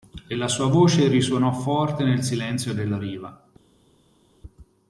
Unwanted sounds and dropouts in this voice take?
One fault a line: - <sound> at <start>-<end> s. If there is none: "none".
none